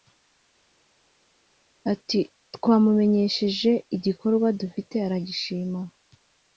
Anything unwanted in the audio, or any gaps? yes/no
no